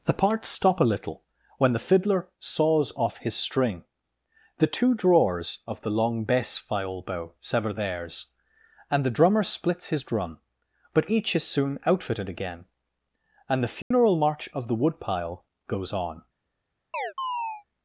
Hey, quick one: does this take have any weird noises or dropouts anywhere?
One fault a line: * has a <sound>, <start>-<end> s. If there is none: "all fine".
* has a dropout, 13.8-13.9 s
* has a chirp, 16.9-17.6 s